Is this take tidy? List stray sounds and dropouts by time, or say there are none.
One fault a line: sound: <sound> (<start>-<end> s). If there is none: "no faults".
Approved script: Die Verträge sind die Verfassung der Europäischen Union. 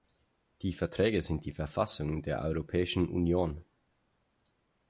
no faults